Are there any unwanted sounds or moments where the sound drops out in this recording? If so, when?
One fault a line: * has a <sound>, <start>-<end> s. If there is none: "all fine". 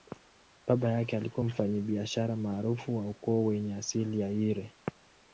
all fine